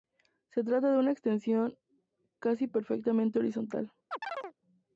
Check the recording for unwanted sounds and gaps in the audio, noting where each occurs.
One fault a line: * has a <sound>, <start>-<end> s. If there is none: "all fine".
* has a chirp, 4.1-4.5 s